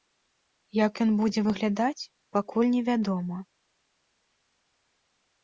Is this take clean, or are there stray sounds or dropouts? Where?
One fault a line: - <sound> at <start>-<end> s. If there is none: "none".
none